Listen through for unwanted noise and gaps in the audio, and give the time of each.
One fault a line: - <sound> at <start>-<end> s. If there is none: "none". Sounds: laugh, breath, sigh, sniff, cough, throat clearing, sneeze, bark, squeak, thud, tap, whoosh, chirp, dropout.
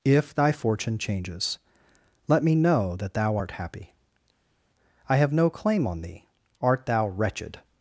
none